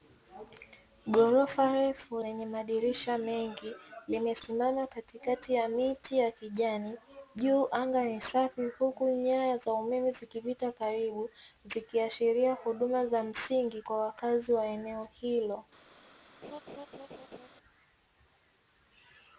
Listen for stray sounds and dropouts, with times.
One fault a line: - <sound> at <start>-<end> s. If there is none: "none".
- laugh at 16.4-17.5 s